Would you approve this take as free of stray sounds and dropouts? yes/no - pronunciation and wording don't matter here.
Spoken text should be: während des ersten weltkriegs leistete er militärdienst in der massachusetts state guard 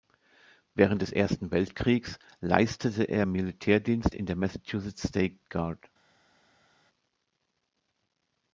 yes